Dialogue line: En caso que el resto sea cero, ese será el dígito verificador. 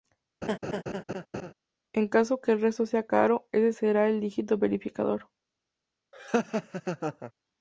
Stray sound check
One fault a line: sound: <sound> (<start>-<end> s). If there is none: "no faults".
sound: laugh (0.4-1.5 s)
sound: laugh (6.1-7.3 s)